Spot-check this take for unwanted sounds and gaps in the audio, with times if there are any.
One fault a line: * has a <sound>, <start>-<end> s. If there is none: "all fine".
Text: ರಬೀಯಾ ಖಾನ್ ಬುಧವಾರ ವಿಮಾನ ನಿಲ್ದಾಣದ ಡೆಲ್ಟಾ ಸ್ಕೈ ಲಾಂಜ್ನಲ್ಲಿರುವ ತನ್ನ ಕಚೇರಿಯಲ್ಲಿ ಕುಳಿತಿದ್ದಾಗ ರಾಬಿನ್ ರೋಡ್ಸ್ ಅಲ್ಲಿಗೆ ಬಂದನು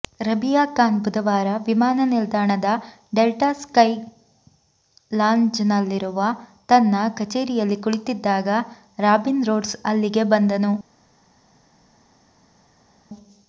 all fine